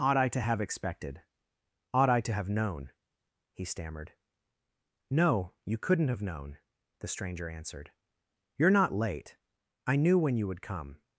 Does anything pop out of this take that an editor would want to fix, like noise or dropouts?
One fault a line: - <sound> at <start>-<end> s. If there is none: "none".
none